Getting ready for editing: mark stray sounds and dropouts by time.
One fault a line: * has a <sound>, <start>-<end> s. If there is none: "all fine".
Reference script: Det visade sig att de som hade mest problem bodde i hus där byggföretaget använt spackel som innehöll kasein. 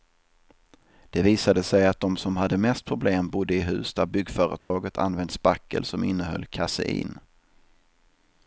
* has a dropout, 4.6-4.7 s